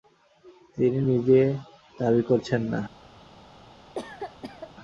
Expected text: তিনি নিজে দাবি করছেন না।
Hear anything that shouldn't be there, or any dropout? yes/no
yes